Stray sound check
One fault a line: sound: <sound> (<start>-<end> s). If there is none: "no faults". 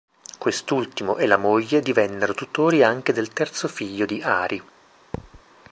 sound: thud (5.1-5.4 s)